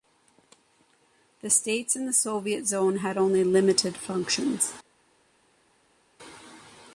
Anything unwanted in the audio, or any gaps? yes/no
no